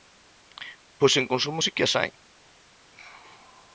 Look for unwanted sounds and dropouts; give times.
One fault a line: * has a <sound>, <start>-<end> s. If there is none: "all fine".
all fine